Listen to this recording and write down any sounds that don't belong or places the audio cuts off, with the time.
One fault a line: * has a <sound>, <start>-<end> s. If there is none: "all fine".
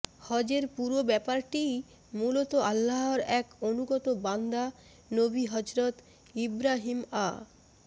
all fine